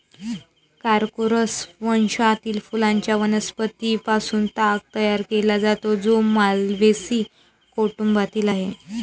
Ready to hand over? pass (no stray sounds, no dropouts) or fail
pass